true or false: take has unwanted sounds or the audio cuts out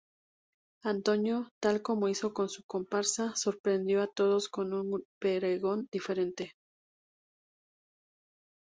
false